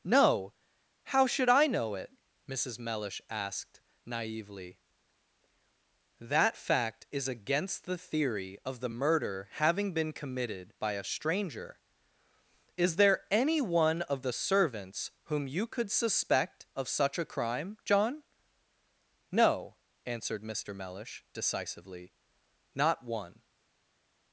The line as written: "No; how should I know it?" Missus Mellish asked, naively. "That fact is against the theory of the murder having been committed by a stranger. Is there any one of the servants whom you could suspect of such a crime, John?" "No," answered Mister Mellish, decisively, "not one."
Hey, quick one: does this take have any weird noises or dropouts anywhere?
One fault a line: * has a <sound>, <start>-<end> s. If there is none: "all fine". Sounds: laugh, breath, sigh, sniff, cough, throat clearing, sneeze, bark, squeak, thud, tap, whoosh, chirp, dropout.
all fine